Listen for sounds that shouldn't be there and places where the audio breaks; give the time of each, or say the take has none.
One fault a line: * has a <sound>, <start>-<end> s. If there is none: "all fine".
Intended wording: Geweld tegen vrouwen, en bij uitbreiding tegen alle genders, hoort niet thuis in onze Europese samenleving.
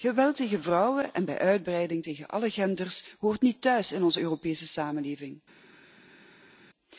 all fine